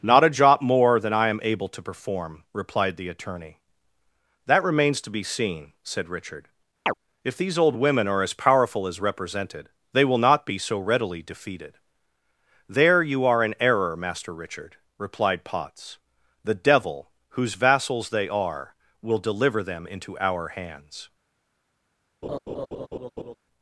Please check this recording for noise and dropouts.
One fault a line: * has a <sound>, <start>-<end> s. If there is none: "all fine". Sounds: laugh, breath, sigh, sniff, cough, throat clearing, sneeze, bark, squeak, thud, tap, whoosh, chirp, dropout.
* has a chirp, 6.9-6.9 s
* has a laugh, 22.2-23.4 s